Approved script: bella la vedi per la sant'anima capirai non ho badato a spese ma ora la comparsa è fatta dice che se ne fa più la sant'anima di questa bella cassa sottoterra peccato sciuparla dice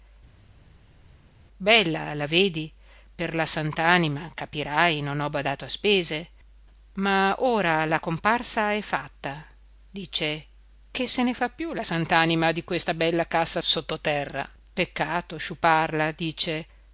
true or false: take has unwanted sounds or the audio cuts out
false